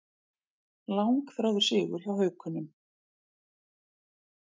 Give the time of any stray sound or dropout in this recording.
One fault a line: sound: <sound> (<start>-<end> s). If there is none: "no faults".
no faults